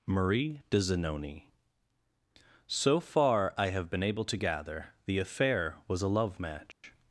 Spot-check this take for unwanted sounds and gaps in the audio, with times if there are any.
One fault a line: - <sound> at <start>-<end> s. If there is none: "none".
- dropout at 6.7-6.8 s